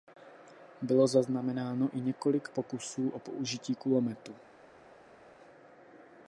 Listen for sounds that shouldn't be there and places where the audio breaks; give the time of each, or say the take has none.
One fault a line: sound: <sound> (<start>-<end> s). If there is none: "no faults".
no faults